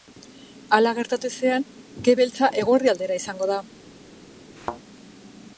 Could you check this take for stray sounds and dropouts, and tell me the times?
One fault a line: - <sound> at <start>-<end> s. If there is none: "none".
- thud at 4.6-4.8 s